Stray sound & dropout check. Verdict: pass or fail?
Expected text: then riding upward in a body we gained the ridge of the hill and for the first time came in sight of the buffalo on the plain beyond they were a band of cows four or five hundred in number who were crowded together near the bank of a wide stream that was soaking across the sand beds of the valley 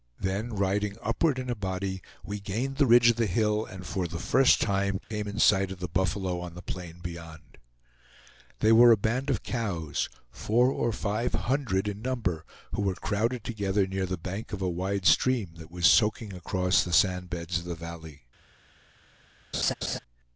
fail